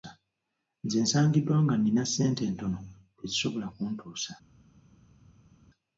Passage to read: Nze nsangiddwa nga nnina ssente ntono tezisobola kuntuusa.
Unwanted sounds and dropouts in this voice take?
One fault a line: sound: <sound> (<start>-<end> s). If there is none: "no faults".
no faults